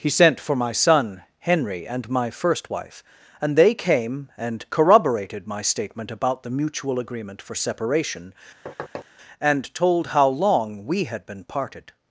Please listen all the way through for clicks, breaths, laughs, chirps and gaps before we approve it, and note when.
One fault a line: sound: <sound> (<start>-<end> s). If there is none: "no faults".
sound: thud (8.7-9.1 s)